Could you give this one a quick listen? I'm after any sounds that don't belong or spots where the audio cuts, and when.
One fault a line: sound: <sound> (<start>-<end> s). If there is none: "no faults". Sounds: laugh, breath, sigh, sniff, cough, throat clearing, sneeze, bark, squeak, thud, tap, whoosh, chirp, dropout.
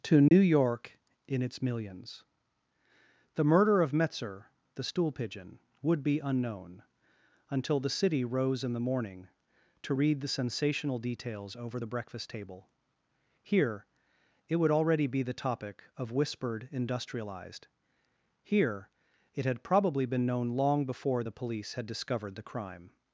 sound: dropout (0.3-0.3 s)